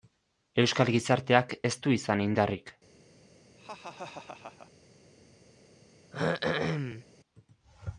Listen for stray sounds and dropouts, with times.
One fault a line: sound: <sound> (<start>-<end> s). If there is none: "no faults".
sound: laugh (3.6-4.7 s)
sound: throat clearing (6.1-7.0 s)